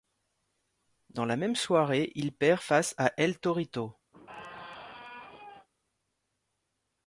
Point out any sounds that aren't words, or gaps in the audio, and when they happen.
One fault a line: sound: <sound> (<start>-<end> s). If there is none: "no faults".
sound: squeak (4.1-5.7 s)